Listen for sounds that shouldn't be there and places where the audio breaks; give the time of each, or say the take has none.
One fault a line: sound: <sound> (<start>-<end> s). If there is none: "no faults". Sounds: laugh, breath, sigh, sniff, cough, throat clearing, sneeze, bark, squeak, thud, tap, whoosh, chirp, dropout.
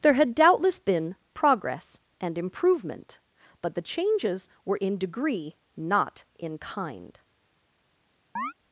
sound: chirp (8.4-8.5 s)